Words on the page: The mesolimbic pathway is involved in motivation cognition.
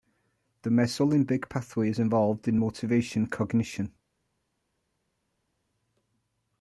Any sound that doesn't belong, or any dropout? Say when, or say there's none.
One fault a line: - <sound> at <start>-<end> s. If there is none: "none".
none